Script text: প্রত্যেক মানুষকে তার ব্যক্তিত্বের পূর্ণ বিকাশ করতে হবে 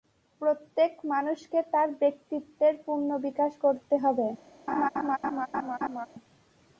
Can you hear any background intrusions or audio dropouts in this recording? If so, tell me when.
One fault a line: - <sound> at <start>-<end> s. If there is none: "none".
- laugh at 4.7-6.1 s